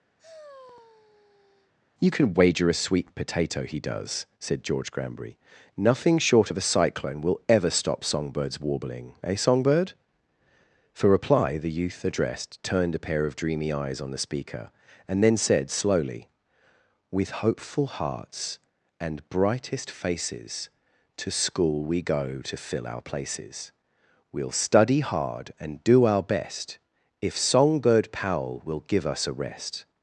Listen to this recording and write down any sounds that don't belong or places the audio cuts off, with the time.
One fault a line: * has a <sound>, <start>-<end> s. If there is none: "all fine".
* has a sigh, 0.2-1.7 s